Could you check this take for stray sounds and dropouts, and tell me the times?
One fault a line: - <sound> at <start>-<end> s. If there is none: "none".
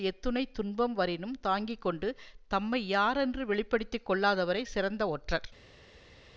none